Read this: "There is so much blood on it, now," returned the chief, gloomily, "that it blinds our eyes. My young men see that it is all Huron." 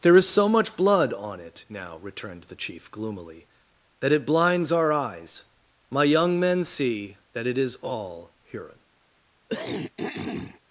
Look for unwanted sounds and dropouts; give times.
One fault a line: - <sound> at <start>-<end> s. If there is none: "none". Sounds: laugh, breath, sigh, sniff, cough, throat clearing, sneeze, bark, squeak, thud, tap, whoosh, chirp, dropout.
- throat clearing at 9.5-10.6 s